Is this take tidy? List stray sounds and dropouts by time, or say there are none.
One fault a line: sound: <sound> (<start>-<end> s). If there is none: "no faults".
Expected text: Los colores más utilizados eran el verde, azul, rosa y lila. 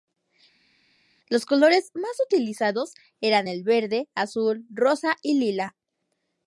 no faults